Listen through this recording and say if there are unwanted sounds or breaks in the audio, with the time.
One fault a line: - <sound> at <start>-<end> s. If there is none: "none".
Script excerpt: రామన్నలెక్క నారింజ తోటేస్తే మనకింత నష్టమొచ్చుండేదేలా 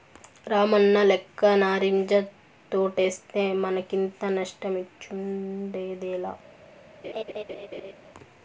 - laugh at 7.0-7.9 s